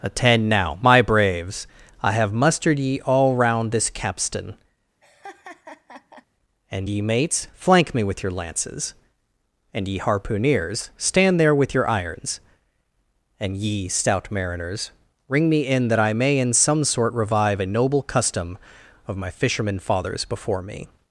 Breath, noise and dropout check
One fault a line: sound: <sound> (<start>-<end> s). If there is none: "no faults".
sound: laugh (5.0-6.3 s)